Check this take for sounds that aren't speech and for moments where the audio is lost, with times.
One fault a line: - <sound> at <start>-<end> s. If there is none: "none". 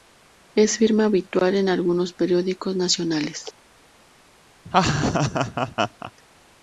- laugh at 4.7-6.1 s